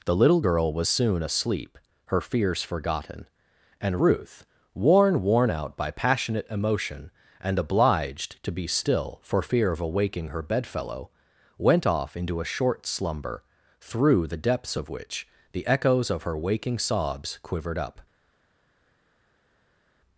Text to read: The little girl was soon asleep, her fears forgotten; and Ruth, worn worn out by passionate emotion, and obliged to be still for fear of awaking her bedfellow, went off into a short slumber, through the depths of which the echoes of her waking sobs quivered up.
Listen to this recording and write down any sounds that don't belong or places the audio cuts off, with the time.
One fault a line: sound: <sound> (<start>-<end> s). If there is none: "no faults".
no faults